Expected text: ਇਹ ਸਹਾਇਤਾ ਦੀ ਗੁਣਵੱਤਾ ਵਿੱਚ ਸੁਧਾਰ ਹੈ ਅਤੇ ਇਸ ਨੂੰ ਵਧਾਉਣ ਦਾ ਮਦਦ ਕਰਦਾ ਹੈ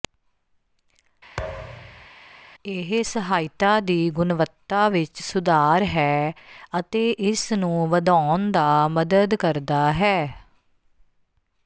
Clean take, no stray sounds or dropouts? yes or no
no